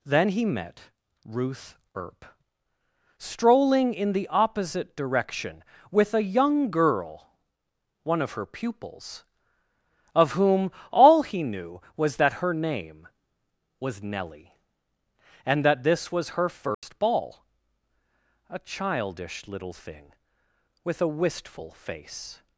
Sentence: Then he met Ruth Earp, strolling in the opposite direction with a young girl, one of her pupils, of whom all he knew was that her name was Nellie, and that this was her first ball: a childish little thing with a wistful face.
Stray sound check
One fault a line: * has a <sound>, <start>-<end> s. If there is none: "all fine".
* has a dropout, 16.7-16.8 s